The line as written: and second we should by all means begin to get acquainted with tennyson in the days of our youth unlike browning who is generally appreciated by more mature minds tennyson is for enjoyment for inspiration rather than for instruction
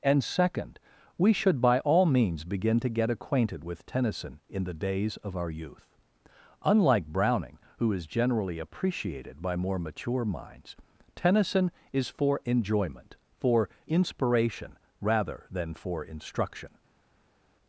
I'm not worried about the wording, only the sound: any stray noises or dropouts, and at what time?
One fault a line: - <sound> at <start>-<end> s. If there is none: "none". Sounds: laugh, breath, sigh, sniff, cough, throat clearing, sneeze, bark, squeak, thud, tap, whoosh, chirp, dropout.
none